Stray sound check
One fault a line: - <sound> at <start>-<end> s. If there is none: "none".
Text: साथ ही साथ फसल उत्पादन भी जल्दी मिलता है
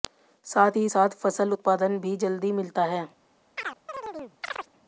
- chirp at 3.6-4.7 s